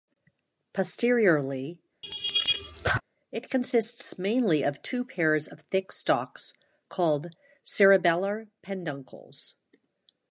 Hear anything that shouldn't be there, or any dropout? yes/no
yes